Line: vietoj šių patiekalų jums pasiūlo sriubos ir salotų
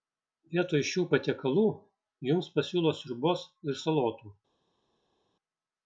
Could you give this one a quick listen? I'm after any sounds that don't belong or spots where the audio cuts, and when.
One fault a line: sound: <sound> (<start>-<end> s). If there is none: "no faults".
no faults